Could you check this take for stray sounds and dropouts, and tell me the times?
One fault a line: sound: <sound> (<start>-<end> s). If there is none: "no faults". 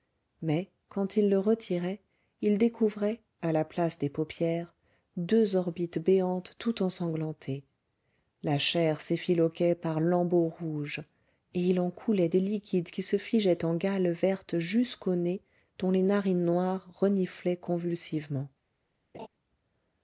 sound: laugh (19.1-19.3 s)